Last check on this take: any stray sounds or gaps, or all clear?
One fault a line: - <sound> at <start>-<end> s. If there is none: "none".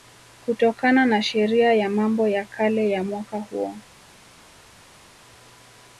none